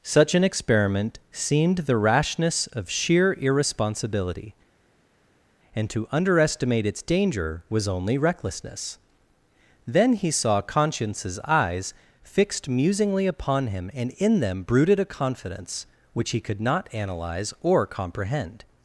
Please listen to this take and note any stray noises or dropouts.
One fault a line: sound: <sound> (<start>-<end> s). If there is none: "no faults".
no faults